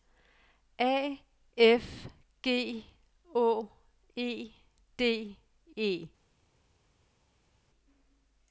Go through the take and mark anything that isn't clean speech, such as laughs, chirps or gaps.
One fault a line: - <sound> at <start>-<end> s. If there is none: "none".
none